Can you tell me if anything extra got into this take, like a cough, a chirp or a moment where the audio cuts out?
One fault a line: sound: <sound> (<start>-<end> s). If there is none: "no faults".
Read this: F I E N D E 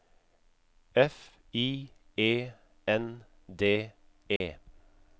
sound: dropout (4.4-4.4 s)